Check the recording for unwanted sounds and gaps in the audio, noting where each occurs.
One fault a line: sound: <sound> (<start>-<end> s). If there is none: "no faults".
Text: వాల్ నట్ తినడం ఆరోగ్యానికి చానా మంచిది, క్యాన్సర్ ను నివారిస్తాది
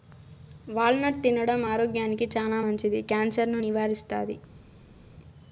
no faults